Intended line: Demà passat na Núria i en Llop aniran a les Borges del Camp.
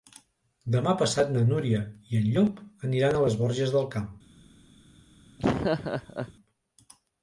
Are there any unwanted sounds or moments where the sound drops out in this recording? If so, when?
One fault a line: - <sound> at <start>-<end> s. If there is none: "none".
- laugh at 5.4-6.3 s